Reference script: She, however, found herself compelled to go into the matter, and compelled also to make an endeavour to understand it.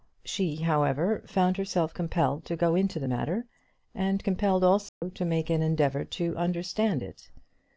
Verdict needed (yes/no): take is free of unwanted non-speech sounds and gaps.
no